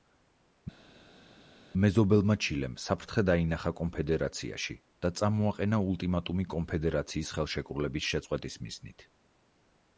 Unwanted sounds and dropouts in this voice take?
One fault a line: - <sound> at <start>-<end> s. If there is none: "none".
none